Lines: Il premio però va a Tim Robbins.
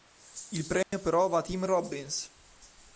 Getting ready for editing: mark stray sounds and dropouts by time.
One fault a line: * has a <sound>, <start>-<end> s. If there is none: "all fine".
* has a dropout, 0.8-0.9 s